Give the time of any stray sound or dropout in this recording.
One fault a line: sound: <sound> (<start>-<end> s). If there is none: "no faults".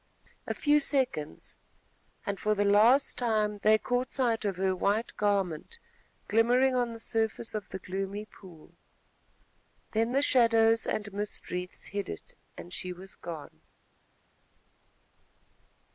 no faults